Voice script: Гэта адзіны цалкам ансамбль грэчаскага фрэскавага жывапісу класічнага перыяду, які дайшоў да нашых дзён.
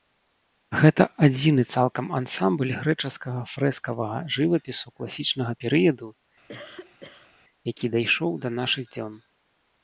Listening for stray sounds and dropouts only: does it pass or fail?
fail